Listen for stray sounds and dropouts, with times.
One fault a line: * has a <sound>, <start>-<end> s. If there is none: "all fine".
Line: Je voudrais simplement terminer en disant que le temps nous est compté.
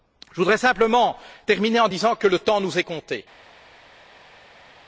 all fine